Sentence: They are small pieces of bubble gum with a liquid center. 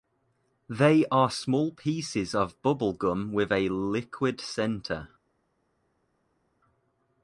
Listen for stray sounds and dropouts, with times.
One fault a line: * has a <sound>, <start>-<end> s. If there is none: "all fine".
all fine